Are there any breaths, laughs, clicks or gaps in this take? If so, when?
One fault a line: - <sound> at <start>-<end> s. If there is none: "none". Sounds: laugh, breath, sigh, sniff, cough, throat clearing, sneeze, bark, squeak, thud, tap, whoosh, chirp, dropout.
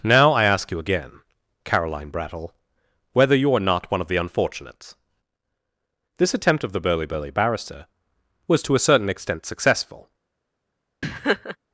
- laugh at 11.0-11.6 s